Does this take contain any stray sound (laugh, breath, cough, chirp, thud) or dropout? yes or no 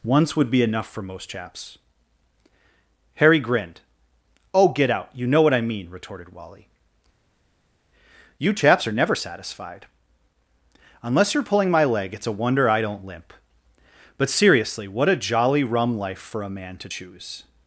no